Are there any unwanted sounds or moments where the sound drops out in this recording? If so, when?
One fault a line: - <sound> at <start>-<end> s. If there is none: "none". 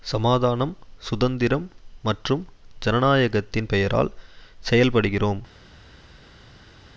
none